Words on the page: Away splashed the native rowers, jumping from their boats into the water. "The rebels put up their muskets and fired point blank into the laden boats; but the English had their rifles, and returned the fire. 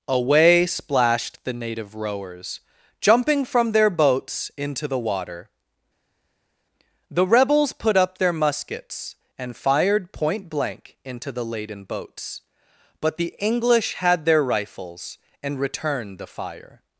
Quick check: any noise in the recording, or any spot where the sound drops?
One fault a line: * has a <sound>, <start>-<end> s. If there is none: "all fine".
all fine